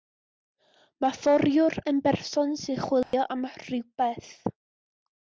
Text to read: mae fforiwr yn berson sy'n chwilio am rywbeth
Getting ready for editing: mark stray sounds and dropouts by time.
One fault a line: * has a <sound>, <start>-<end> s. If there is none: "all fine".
* has a dropout, 3.0-3.1 s